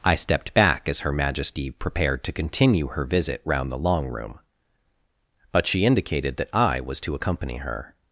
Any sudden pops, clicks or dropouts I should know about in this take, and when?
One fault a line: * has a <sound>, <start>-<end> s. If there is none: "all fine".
all fine